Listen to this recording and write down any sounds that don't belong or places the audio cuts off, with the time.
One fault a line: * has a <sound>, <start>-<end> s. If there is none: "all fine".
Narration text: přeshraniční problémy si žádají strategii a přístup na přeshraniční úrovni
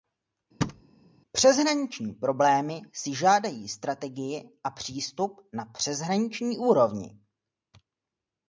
* has a thud, 0.6-0.8 s